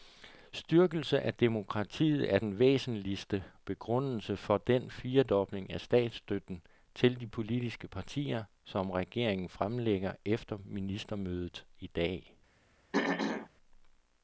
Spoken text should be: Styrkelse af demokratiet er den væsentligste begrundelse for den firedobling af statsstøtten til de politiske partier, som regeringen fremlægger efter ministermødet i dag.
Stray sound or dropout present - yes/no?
yes